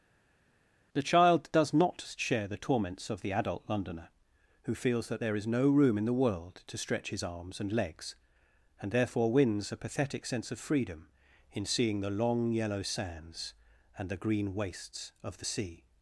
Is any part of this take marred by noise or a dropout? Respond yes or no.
no